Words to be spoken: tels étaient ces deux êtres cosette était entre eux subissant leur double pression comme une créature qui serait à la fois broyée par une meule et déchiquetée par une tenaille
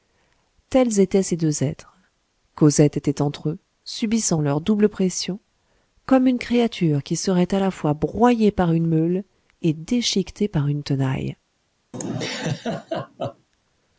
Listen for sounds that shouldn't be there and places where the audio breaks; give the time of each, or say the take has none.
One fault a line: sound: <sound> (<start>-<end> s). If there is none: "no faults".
sound: laugh (11.9-13.5 s)